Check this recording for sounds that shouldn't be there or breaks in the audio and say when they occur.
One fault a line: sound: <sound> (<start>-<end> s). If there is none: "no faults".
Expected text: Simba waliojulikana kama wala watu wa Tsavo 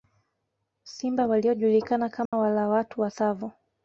sound: dropout (2.3-2.3 s)